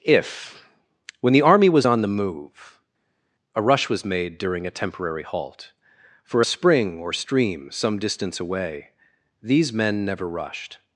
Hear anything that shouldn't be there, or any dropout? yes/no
no